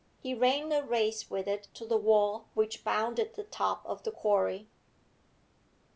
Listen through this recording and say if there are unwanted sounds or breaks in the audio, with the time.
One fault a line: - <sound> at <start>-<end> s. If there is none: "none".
none